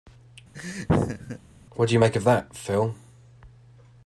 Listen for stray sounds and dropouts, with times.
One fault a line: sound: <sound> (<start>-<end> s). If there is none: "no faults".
sound: laugh (0.5-1.4 s)